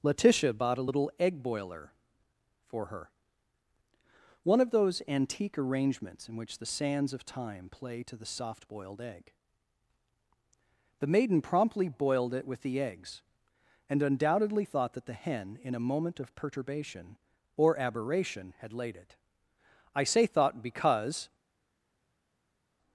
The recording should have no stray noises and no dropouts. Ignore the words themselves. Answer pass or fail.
pass